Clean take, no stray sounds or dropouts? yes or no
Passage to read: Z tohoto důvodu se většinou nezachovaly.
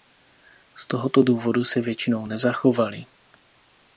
yes